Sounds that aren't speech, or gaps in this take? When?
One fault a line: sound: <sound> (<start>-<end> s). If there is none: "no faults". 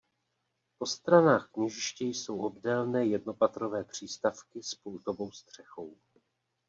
no faults